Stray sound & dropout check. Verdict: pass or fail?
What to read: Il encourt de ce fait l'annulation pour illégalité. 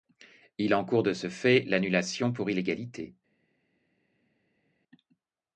pass